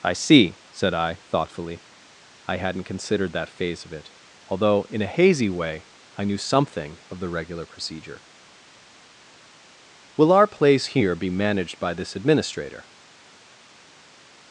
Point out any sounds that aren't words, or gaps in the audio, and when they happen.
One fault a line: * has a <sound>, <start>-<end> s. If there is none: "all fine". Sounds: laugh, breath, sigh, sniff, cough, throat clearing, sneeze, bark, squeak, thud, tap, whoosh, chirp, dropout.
all fine